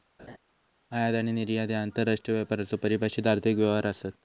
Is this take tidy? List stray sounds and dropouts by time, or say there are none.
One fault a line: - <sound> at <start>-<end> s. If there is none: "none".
- laugh at 0.2-0.4 s